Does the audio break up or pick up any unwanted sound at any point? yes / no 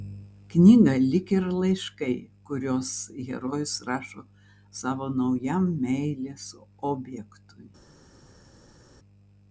no